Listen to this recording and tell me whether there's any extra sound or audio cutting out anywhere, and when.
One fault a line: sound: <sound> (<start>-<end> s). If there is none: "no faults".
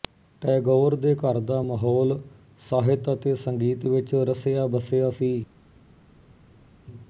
no faults